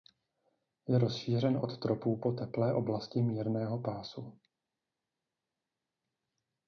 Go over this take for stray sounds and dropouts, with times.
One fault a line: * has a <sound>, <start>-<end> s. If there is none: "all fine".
all fine